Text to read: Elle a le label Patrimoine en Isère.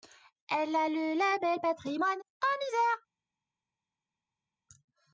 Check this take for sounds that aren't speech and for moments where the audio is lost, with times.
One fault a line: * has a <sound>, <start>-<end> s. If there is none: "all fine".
all fine